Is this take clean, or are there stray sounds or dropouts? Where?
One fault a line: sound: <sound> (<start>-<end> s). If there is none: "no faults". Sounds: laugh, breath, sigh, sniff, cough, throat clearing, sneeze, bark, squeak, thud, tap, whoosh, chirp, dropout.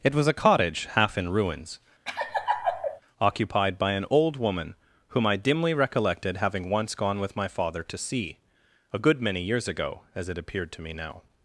sound: laugh (2.1-3.0 s)